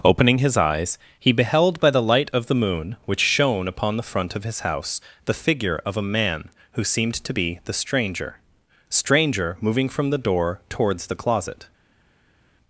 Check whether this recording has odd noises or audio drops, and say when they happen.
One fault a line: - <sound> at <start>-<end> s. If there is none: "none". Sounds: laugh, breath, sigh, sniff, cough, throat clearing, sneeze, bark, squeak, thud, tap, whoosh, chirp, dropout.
none